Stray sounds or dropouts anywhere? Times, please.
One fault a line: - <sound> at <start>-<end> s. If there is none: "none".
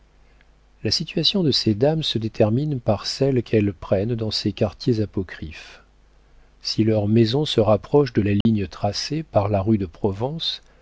- dropout at 8.4-8.5 s